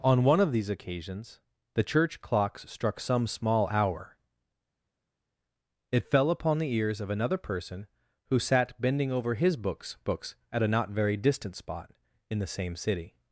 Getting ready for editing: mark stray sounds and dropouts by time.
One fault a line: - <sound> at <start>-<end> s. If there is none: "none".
none